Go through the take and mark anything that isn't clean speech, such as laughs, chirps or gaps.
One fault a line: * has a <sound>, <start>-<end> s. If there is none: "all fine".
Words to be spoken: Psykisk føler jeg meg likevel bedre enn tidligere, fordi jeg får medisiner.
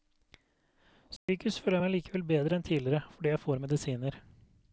* has a dropout, 1.2-1.3 s